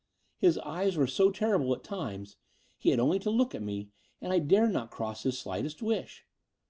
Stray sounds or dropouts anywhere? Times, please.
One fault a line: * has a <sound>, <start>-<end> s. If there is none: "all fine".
all fine